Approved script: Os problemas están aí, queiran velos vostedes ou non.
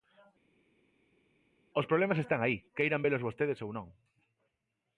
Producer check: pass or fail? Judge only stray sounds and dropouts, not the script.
pass